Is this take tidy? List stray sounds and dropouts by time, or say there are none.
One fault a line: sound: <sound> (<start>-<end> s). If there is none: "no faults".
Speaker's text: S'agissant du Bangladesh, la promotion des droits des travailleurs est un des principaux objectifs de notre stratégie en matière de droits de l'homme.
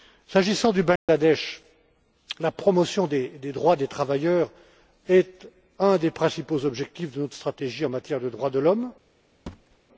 sound: dropout (1.0-1.1 s)
sound: thud (9.5-9.8 s)